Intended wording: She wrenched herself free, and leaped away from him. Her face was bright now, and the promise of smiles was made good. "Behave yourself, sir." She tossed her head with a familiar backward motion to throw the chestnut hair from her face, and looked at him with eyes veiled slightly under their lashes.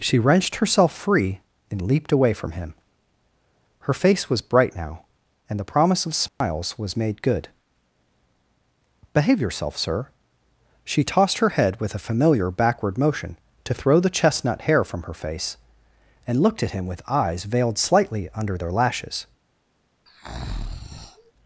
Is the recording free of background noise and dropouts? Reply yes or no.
no